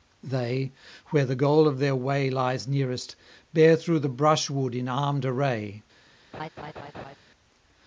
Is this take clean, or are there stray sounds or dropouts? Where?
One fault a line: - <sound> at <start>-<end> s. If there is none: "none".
- laugh at 6.3-7.2 s